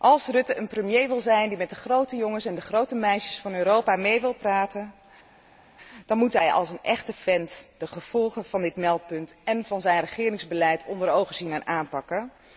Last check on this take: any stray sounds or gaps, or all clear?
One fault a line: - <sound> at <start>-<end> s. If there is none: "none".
none